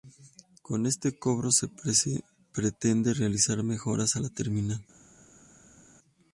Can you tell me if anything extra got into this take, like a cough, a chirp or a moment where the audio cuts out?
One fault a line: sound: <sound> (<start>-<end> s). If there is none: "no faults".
no faults